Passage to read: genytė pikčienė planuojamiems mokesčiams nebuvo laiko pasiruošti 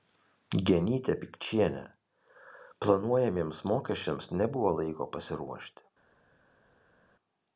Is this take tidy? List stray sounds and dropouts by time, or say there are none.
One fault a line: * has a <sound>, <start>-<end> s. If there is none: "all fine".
all fine